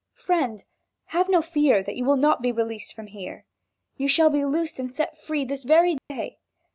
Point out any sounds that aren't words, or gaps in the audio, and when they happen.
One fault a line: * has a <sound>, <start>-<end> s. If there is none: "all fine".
* has a dropout, 6.0-6.1 s